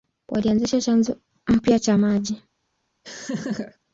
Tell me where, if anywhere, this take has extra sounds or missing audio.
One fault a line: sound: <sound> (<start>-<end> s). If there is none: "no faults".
sound: laugh (3.0-3.8 s)